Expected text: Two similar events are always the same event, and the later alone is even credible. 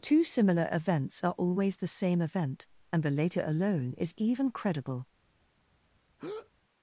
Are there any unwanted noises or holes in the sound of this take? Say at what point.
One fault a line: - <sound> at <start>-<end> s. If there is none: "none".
- breath at 6.2-6.5 s